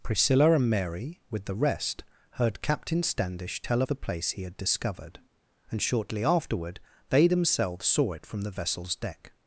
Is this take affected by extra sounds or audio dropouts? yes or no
no